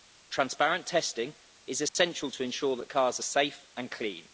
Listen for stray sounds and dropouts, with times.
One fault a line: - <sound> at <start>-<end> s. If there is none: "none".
- dropout at 1.9-2.0 s